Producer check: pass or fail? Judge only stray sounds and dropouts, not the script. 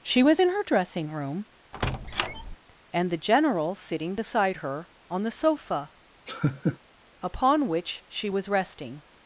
fail